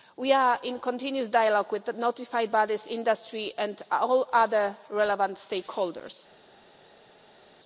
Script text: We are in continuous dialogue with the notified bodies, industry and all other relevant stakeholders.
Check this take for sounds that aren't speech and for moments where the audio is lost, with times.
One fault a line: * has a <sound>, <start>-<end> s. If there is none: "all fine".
all fine